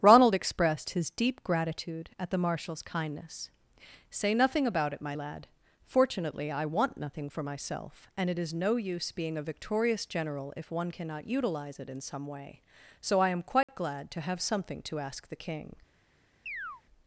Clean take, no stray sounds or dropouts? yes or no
no